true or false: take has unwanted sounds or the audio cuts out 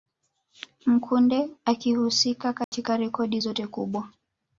true